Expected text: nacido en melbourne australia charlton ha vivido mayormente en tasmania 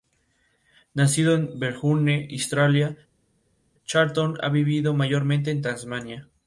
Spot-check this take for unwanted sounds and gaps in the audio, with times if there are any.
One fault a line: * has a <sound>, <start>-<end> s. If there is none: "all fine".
all fine